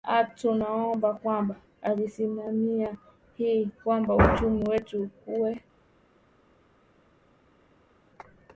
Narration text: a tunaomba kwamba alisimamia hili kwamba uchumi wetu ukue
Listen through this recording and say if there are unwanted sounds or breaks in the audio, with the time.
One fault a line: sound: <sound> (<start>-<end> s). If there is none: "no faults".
no faults